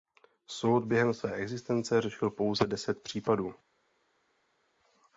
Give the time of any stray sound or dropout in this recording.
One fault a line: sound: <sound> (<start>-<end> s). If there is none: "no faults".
no faults